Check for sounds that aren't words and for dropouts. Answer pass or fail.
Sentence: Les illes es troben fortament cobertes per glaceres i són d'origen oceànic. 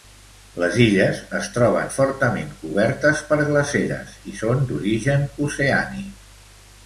pass